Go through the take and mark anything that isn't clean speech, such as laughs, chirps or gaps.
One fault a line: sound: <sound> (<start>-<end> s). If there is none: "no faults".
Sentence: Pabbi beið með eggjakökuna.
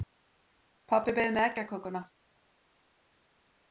no faults